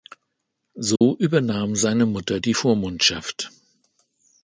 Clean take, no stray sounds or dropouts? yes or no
no